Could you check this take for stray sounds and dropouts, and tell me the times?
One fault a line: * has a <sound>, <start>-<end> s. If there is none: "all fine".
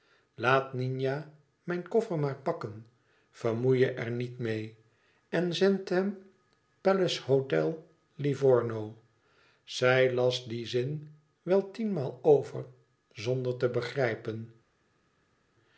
all fine